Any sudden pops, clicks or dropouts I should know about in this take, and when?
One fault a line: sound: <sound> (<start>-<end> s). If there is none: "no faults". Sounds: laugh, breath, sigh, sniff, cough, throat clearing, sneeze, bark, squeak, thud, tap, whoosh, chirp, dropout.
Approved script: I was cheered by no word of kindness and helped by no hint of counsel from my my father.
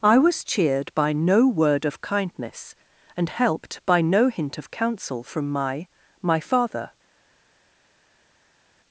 no faults